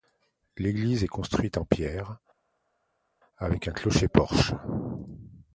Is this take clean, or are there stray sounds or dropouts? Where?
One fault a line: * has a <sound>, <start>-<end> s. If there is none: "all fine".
all fine